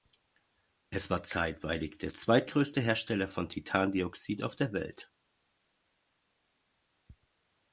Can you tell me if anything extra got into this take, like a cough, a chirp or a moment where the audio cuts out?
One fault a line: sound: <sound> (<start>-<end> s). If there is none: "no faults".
no faults